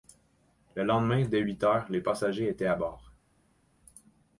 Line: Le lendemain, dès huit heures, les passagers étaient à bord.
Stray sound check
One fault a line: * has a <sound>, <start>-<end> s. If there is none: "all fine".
all fine